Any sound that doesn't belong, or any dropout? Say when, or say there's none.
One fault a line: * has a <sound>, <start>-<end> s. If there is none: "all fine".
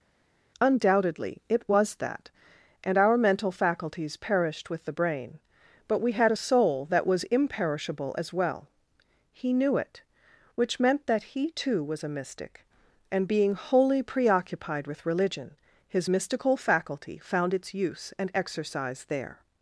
all fine